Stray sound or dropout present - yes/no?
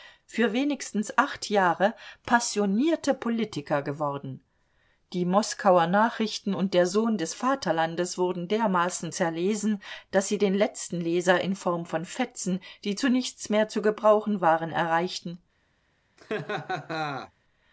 yes